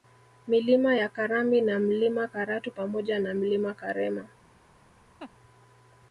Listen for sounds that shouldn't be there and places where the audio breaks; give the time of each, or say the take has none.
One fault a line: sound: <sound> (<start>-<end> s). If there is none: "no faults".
sound: laugh (5.2-5.3 s)